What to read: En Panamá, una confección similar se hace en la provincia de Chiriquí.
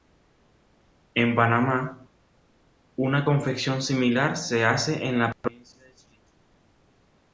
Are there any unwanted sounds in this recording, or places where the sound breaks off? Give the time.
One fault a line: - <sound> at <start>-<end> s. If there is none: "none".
none